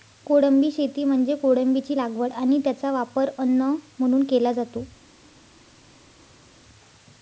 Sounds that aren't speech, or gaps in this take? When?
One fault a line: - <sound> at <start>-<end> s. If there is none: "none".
none